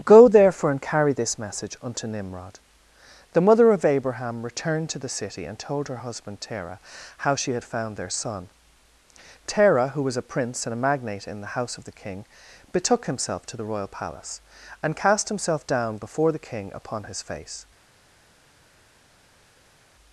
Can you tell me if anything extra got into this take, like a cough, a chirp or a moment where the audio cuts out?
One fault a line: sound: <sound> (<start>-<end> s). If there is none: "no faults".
no faults